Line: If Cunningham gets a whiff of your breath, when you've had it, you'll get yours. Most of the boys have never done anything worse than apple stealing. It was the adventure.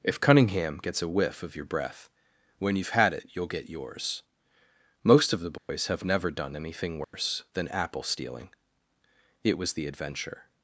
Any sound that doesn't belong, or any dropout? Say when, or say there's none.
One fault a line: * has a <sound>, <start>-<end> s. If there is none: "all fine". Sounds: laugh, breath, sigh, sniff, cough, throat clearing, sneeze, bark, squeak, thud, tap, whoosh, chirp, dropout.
* has a dropout, 5.6-5.7 s
* has a dropout, 7.0-7.1 s